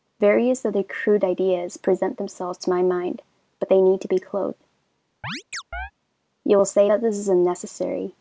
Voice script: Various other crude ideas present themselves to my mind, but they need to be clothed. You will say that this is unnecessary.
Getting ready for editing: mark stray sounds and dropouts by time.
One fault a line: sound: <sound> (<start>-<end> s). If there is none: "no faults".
sound: chirp (5.2-5.9 s)